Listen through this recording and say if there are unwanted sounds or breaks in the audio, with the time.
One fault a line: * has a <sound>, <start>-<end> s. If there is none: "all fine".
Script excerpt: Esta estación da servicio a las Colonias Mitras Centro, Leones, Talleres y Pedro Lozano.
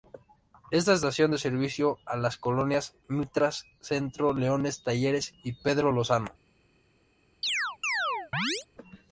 * has a chirp, 7.4-8.7 s